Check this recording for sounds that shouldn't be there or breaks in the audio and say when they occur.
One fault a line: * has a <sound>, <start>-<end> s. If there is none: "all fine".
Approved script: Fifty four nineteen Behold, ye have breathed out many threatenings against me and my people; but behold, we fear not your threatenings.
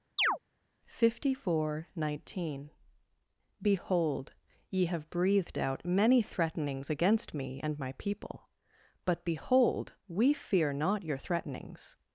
* has a chirp, 0.2-0.4 s